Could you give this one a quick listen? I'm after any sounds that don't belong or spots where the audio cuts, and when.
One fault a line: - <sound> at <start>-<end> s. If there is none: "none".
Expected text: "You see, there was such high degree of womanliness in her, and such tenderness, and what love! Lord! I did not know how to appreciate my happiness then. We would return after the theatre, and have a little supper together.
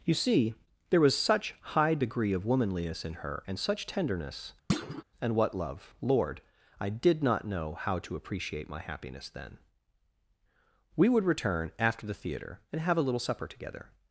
- thud at 4.7-5.0 s